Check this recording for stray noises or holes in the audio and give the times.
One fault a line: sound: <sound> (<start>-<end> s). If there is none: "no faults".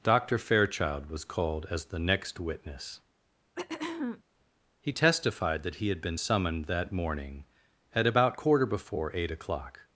sound: throat clearing (3.6-4.2 s)